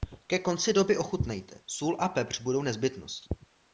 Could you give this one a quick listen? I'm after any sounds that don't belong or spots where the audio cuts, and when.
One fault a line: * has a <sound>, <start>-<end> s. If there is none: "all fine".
all fine